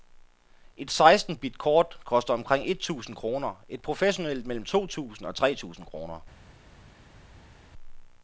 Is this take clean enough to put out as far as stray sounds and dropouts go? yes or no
yes